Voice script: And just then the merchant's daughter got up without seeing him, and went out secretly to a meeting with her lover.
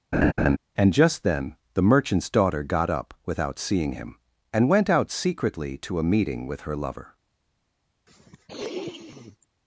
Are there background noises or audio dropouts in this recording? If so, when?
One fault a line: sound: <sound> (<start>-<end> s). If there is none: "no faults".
sound: laugh (0.1-0.6 s)
sound: sniff (8.1-9.5 s)